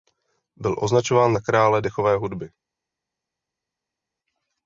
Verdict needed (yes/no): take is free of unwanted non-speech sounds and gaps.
yes